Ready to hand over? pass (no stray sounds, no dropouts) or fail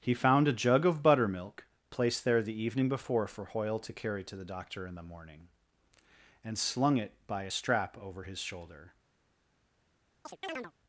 fail